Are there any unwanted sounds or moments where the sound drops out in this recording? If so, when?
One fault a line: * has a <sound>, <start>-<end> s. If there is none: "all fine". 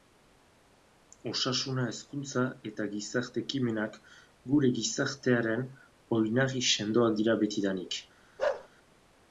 * has a bark, 8.4-8.7 s